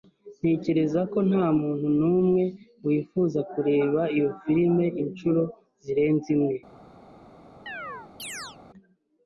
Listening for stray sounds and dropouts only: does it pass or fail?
fail